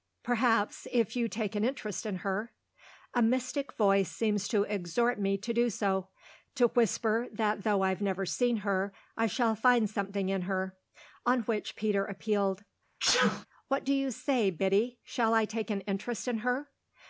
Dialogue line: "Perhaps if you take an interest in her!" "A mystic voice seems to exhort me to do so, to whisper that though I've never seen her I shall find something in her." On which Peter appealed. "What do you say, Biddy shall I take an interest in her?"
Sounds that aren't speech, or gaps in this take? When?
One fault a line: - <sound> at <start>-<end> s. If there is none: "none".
- sneeze at 13.0-13.5 s